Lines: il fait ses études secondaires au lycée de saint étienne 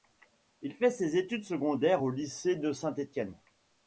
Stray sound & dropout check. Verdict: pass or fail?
pass